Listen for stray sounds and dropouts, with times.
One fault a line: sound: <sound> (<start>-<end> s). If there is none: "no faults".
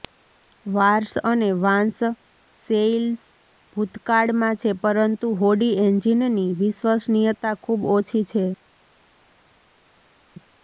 no faults